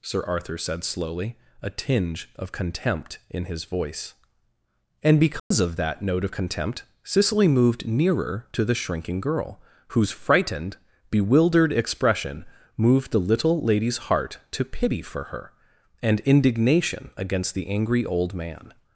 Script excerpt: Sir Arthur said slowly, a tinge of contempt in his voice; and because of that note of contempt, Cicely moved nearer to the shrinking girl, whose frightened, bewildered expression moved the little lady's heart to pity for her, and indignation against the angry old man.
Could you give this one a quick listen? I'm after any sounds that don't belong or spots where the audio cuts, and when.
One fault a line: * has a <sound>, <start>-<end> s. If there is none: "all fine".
* has a dropout, 5.4-5.5 s